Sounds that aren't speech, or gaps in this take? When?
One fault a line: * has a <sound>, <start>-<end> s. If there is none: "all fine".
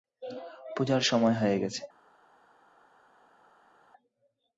all fine